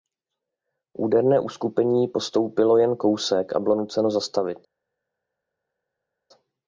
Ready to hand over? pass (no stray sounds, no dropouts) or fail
pass